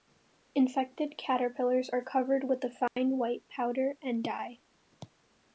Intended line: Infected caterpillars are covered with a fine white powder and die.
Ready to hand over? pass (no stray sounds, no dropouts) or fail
fail